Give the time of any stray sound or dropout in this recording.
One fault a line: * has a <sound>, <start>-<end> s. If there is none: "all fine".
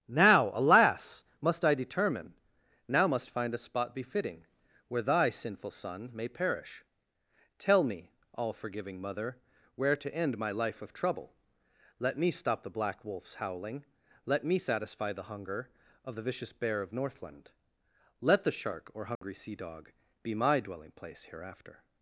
* has a dropout, 19.2-19.2 s